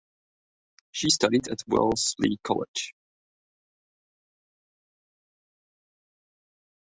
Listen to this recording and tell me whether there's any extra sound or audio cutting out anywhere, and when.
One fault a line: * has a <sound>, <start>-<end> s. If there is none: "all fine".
all fine